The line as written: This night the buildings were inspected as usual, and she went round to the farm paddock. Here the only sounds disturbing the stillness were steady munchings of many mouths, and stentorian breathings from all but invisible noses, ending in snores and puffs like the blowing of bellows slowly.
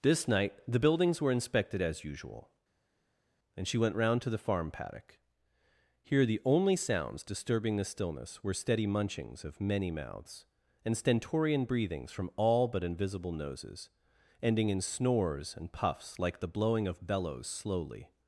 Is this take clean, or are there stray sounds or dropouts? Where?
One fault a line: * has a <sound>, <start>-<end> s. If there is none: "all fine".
all fine